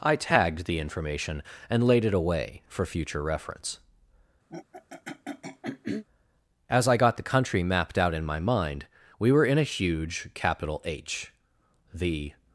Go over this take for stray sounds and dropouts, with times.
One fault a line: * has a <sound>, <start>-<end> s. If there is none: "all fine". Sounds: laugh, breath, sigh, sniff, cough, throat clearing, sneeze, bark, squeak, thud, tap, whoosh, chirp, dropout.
* has a throat clearing, 4.5-6.0 s